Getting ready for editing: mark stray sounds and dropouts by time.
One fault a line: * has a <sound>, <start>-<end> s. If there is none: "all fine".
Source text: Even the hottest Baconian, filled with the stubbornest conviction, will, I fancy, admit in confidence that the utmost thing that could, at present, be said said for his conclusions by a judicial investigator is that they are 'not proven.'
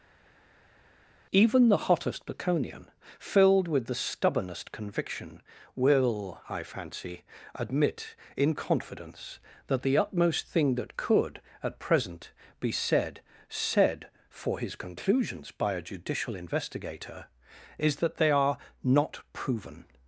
all fine